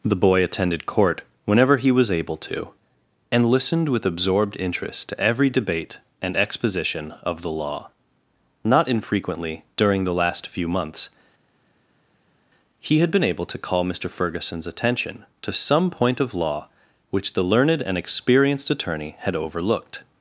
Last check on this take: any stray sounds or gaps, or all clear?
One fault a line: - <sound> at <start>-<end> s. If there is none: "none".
none